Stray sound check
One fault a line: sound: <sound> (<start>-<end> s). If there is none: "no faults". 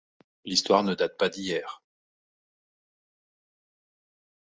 no faults